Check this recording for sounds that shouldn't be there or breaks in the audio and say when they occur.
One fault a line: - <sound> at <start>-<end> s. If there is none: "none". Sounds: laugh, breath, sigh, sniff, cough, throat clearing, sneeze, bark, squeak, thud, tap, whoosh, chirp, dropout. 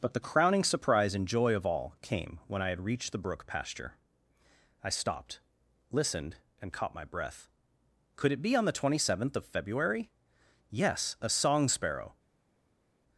none